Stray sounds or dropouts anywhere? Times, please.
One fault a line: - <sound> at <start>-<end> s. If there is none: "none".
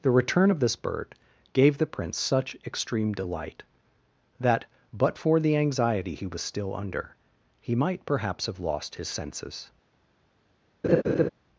- laugh at 10.8-11.3 s